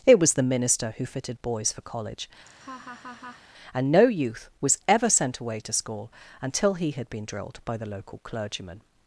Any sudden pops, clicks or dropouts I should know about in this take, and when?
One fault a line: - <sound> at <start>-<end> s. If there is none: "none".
- laugh at 2.5-3.4 s